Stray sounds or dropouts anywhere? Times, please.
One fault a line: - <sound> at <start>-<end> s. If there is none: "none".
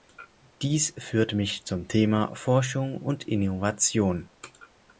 none